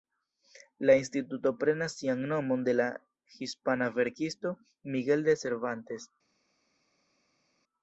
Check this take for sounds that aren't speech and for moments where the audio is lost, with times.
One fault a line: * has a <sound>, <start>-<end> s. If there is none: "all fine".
all fine